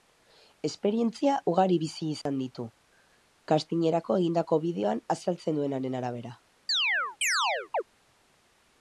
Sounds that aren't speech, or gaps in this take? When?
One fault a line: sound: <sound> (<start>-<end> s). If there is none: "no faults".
sound: dropout (2.2-2.3 s)
sound: chirp (6.7-7.8 s)